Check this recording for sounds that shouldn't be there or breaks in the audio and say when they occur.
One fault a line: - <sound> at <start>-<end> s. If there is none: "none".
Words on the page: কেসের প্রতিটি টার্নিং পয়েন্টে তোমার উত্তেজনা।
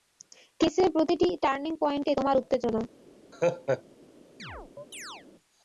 - laugh at 3.3-3.8 s
- chirp at 4.4-5.3 s